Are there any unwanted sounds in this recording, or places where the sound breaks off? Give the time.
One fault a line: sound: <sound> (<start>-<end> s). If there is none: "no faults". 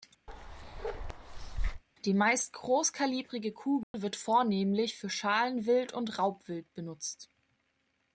sound: bark (0.3-1.8 s)
sound: dropout (3.8-3.9 s)